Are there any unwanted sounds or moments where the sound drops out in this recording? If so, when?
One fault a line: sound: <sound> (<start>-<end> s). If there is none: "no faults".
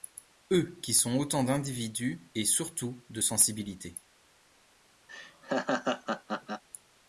sound: laugh (5.1-6.6 s)